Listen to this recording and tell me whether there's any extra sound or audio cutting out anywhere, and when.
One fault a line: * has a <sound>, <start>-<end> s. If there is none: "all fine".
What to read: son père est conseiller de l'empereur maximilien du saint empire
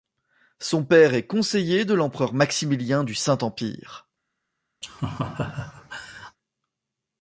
* has a laugh, 4.8-6.4 s